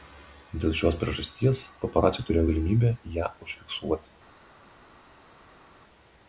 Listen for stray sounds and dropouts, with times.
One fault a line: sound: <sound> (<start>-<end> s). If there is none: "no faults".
no faults